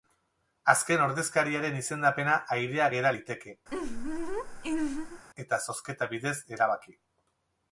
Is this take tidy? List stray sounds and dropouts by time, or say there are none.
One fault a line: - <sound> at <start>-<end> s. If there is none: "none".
- laugh at 3.7-5.2 s